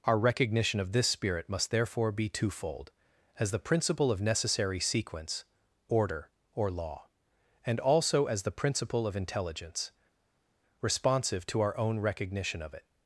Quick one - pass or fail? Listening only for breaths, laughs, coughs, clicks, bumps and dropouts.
pass